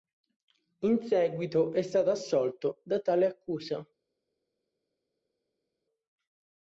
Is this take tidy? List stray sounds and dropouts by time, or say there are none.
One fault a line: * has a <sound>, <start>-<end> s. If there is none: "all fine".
all fine